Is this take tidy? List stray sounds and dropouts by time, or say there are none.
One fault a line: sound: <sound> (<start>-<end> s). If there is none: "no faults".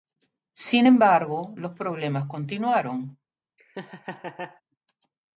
sound: laugh (3.6-4.6 s)